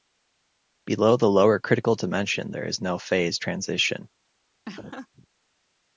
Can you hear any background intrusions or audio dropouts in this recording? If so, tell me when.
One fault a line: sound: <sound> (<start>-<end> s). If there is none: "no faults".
sound: laugh (4.7-5.3 s)